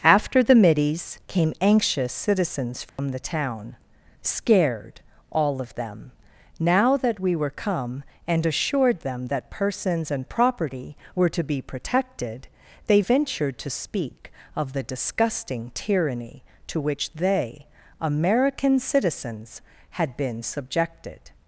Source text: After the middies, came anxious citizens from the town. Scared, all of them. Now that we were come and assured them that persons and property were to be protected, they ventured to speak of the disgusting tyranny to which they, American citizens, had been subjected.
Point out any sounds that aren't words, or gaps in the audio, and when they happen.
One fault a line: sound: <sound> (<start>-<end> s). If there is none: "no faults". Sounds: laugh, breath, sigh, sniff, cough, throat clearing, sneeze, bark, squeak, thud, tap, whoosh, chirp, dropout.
sound: dropout (2.9-3.0 s)